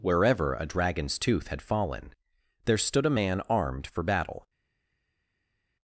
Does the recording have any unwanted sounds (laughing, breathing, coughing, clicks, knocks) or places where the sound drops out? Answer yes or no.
no